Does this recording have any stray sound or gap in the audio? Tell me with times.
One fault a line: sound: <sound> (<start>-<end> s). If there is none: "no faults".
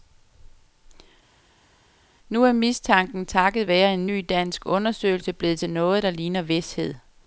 no faults